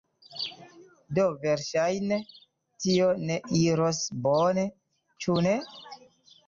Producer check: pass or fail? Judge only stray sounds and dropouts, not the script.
pass